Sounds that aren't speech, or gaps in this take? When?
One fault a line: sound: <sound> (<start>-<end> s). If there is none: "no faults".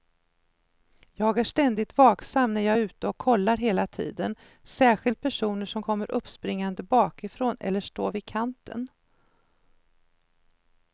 no faults